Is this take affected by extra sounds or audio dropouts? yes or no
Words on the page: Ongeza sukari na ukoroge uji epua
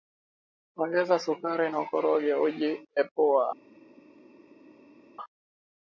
no